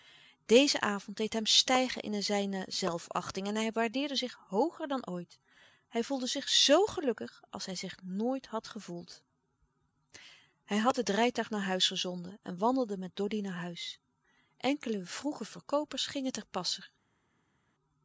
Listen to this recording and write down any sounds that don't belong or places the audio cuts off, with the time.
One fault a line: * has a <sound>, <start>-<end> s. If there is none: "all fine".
all fine